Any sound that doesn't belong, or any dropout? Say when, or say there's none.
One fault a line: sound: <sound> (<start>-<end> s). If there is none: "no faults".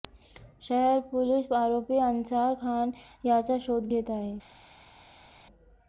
no faults